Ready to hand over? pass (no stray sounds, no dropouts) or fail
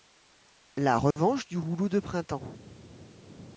fail